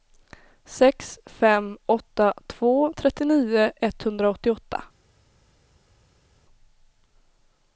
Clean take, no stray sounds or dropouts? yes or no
yes